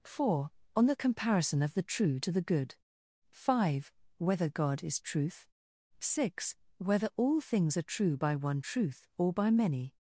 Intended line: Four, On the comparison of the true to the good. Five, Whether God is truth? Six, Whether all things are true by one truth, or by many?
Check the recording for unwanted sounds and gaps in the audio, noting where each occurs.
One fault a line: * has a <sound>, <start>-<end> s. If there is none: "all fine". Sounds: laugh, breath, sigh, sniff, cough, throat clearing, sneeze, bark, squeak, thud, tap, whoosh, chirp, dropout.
all fine